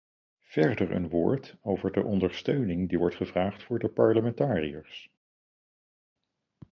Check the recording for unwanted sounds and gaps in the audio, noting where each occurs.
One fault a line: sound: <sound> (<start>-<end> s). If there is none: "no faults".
no faults